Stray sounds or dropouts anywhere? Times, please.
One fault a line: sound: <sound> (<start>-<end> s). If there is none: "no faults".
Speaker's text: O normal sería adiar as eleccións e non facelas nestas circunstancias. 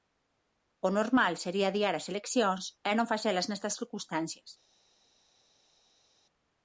no faults